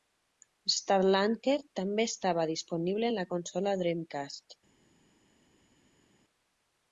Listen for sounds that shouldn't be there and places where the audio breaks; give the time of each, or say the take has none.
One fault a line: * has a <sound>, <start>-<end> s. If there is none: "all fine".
all fine